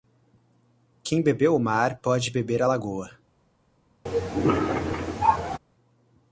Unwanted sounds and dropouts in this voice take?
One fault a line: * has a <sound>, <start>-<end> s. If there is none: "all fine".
* has a cough, 4.1-5.6 s